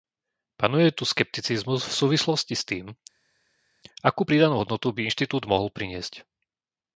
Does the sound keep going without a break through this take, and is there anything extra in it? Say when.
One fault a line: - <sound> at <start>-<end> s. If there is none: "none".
none